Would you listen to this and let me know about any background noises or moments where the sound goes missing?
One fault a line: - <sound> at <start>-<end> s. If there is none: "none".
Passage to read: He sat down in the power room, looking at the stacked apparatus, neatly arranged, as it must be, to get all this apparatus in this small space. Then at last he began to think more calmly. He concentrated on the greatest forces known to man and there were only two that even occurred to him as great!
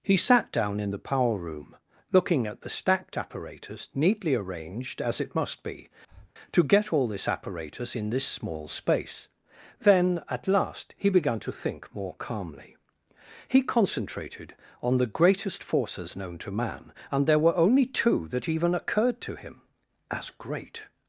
- breath at 6.1-6.3 s